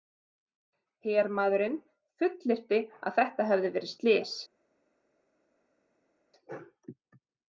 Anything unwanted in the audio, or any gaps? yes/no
no